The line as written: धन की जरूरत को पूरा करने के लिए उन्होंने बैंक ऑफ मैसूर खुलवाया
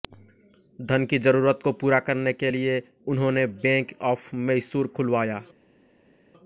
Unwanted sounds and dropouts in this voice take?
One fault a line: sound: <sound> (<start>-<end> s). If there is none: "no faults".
no faults